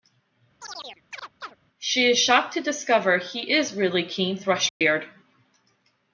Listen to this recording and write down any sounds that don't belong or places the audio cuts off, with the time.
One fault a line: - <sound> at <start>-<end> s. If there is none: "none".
- chirp at 0.6-1.6 s
- dropout at 4.7-4.8 s